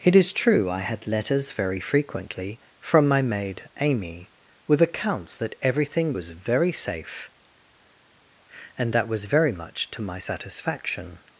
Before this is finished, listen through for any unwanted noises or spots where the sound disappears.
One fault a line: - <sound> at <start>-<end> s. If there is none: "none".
none